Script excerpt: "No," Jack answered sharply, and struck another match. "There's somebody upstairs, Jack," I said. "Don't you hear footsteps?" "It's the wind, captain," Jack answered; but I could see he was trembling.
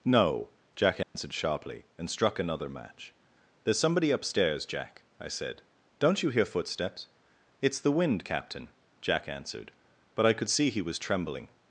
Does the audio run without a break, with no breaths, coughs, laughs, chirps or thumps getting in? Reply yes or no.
no